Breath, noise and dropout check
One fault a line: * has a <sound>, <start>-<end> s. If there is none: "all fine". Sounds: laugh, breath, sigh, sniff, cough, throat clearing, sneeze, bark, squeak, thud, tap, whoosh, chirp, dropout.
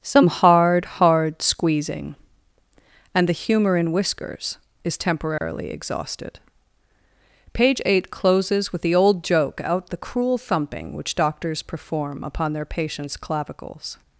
* has a dropout, 5.4-5.4 s